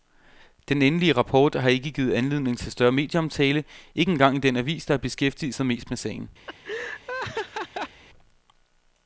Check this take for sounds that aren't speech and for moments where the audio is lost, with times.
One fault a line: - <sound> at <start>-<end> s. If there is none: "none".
- laugh at 6.5-8.0 s